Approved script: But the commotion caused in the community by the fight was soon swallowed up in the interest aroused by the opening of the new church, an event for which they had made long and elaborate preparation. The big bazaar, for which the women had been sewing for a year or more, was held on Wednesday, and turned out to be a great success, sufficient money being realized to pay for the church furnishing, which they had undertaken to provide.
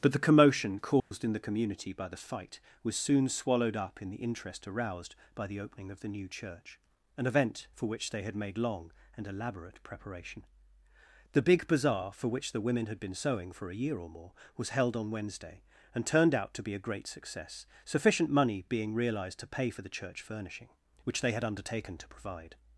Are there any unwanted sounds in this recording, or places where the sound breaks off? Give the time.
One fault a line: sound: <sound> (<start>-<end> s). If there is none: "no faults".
sound: dropout (1.0-1.1 s)